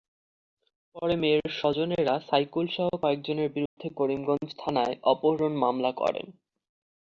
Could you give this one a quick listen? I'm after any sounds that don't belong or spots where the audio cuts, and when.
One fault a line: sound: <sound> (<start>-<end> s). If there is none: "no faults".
sound: dropout (3.7-3.8 s)